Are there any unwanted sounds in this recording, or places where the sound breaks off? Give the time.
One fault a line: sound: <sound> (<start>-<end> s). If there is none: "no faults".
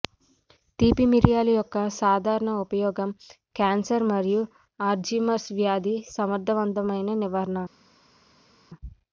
no faults